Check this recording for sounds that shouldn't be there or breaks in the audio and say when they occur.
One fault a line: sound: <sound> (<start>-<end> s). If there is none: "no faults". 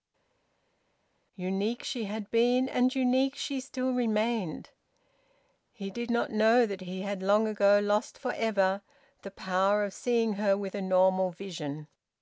no faults